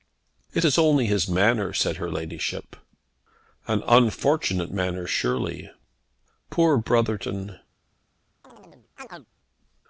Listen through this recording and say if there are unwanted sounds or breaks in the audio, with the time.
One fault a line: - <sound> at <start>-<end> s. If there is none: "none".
- chirp at 8.4-9.3 s